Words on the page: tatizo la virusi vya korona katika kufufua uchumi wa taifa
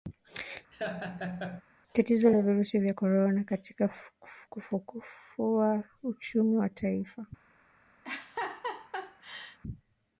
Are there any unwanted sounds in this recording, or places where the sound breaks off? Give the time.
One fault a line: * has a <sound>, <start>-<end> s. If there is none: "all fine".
* has a laugh, 0.7-1.6 s
* has a laugh, 8.0-9.6 s